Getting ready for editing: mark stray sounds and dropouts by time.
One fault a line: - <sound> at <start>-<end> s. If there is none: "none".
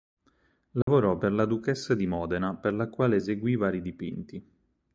- dropout at 0.8-0.9 s